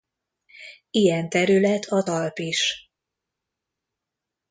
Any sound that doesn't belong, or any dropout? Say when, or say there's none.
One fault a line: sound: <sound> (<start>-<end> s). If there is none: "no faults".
no faults